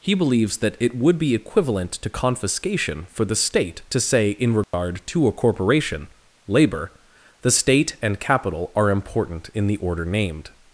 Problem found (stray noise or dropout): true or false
true